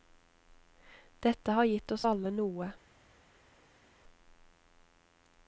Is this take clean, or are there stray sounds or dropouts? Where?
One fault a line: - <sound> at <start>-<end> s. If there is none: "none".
none